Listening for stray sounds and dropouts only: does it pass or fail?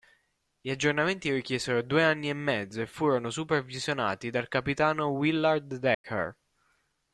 fail